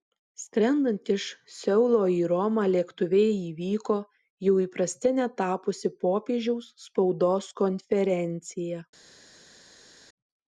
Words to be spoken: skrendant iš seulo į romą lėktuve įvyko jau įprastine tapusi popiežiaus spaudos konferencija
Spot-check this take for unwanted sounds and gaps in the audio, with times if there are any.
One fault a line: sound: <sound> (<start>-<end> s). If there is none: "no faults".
no faults